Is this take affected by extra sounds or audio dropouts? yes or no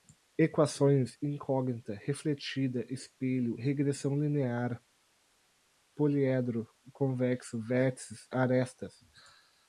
no